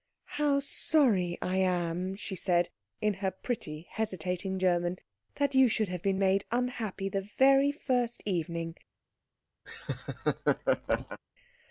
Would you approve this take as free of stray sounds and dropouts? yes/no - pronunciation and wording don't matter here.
no